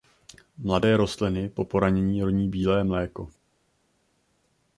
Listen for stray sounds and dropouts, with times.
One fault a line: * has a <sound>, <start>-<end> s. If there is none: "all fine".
all fine